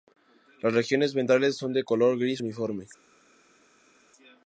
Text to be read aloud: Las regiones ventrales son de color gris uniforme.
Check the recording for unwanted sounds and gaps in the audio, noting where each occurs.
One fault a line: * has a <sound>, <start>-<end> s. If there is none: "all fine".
all fine